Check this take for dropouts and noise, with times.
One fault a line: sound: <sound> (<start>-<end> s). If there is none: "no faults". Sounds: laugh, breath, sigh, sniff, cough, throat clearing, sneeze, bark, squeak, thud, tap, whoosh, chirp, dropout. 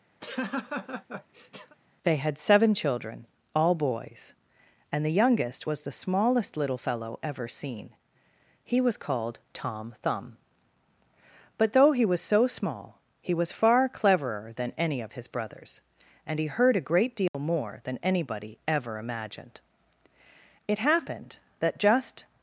sound: laugh (0.2-1.8 s)
sound: dropout (17.3-17.3 s)